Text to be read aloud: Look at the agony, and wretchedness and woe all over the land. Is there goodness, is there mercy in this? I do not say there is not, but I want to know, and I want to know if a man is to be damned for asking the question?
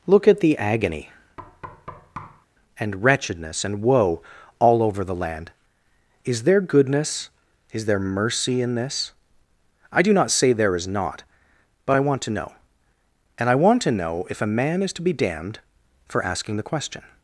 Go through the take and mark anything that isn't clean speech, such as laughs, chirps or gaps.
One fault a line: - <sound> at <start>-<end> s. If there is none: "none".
- thud at 1.4-2.5 s